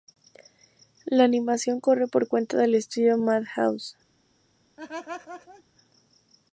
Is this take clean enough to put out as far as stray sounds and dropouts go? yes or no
no